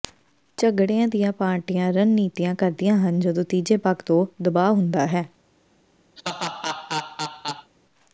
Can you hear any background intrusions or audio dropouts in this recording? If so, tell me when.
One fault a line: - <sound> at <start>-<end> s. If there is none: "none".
- laugh at 6.2-7.7 s